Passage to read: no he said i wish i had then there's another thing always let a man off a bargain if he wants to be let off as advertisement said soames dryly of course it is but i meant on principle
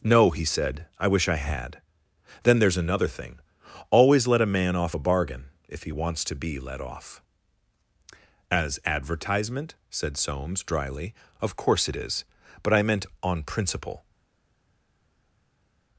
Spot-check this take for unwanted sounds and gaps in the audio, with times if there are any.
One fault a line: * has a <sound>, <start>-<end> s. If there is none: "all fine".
all fine